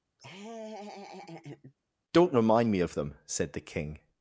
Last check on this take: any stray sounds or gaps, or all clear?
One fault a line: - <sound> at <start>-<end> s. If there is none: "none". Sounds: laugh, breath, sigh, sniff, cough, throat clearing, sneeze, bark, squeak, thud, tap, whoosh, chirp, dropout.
- laugh at 0.2-1.7 s